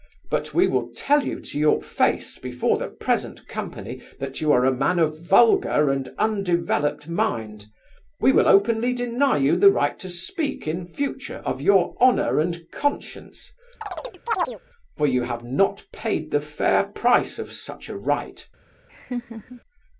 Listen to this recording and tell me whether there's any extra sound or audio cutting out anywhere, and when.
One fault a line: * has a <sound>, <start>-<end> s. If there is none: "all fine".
* has a chirp, 13.8-14.6 s
* has a laugh, 18.9-19.6 s